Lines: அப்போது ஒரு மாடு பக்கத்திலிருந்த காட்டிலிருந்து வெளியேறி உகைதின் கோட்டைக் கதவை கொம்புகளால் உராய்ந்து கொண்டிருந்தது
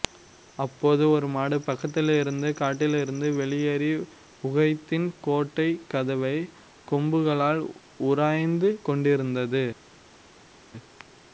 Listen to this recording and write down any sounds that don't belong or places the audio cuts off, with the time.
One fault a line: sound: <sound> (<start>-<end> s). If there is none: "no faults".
no faults